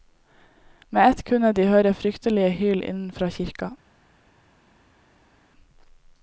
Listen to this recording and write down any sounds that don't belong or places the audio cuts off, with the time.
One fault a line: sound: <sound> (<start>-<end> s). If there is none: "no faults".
no faults